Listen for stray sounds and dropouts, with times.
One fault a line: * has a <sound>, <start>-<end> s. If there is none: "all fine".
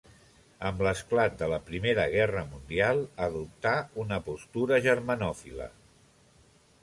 all fine